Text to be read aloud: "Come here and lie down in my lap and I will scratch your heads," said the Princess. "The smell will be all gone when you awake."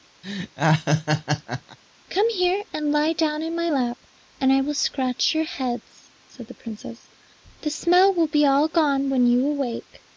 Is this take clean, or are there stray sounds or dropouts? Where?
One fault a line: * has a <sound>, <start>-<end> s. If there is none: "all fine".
* has a laugh, 0.2-1.8 s